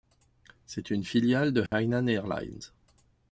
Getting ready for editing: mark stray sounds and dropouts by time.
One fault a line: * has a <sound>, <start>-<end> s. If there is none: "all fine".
* has a dropout, 1.7-1.7 s